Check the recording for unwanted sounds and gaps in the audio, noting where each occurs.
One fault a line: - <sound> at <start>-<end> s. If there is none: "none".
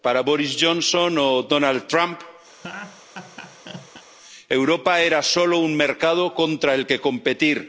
- laugh at 2.5-4.0 s